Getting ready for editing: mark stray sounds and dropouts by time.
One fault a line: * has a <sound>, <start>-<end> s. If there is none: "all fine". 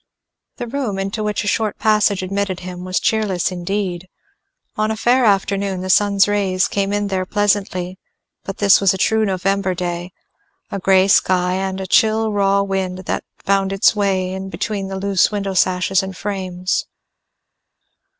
all fine